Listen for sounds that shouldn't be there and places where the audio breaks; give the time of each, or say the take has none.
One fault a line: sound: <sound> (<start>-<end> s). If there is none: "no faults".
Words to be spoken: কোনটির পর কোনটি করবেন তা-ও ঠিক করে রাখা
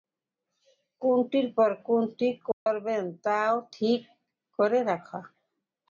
sound: dropout (2.5-2.7 s)